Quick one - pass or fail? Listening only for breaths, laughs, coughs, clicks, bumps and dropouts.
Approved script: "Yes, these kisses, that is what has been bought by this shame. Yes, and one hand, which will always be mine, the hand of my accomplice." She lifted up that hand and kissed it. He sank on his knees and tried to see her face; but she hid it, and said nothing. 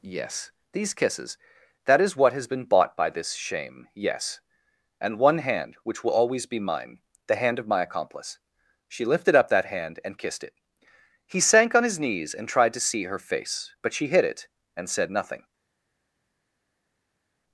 pass